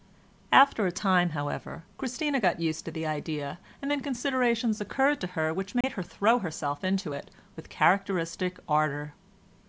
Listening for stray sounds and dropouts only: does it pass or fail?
fail